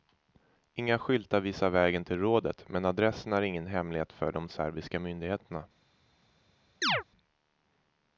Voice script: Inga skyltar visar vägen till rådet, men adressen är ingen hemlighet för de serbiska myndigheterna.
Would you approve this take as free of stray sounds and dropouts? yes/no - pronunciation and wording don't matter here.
no